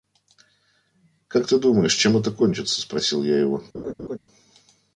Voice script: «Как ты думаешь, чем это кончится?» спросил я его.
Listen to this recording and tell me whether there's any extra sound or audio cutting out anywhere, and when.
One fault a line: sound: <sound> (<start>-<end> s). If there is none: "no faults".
sound: laugh (3.7-4.2 s)